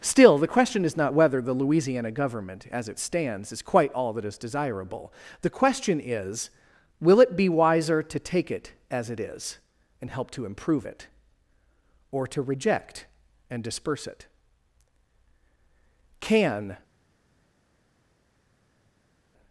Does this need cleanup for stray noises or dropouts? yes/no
no